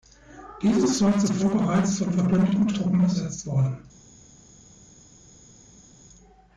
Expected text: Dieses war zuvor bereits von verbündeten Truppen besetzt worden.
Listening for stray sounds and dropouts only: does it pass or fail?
pass